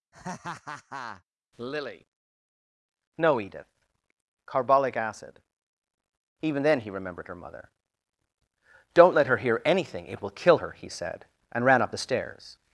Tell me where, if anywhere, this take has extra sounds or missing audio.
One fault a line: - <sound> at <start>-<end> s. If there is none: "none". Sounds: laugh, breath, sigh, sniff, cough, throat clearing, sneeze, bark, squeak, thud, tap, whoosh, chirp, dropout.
- laugh at 0.1-1.2 s